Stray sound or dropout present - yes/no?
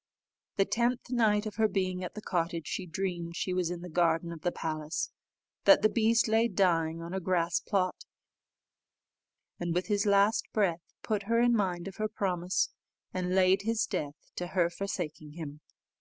no